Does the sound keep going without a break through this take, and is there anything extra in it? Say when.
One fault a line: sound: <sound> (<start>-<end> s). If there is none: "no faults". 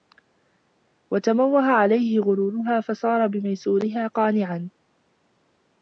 no faults